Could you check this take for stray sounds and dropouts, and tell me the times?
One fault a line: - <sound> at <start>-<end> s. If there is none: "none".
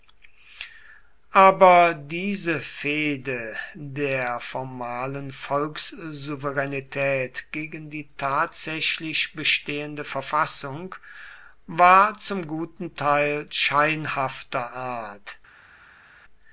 none